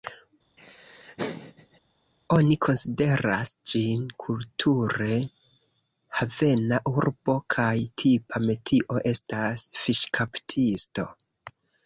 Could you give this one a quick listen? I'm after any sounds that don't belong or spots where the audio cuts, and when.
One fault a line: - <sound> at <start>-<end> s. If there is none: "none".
- laugh at 0.6-1.8 s